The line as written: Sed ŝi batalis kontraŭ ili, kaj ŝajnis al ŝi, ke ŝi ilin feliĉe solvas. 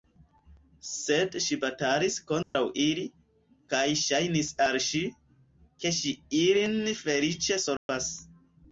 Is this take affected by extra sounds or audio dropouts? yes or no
yes